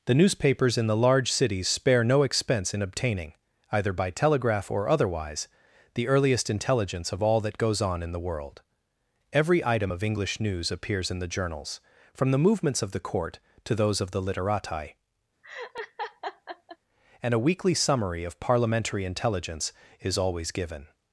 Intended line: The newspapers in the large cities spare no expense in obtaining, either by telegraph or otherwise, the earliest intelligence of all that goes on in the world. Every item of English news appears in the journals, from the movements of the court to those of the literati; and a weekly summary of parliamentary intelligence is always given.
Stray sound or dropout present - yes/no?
yes